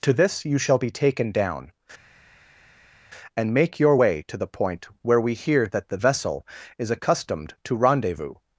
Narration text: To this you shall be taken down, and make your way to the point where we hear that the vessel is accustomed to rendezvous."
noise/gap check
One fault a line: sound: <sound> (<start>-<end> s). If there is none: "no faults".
no faults